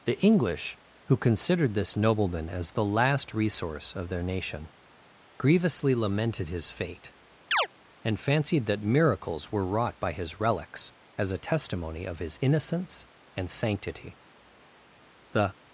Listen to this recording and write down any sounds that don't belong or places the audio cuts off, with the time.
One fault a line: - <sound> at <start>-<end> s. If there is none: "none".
- chirp at 7.5-7.7 s